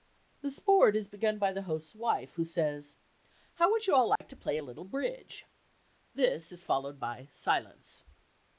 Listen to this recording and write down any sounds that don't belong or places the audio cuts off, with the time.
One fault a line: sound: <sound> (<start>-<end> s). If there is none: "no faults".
sound: dropout (4.2-4.2 s)